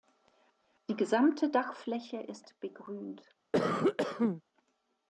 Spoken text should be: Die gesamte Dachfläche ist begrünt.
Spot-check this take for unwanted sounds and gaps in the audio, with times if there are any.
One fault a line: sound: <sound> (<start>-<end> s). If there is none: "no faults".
sound: cough (3.5-4.4 s)